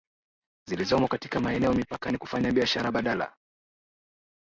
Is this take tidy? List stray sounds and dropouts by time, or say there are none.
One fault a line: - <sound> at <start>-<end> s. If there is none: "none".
none